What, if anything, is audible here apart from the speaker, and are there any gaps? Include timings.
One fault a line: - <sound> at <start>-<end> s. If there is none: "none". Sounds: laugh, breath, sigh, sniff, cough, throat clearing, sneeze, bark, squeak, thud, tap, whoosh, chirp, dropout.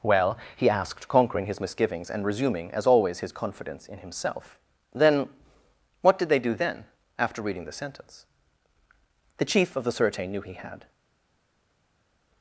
none